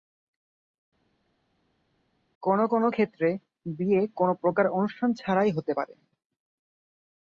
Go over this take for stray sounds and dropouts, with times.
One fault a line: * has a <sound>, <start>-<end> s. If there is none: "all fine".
all fine